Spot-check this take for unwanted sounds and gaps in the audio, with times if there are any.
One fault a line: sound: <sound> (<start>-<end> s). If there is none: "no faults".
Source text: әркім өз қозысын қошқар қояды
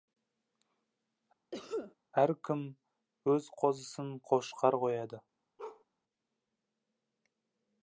sound: cough (1.5-1.9 s)
sound: bark (5.6-5.8 s)